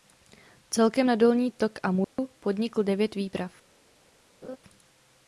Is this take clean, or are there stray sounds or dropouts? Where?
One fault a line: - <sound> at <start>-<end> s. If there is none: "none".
- dropout at 2.0-2.2 s
- laugh at 4.4-4.6 s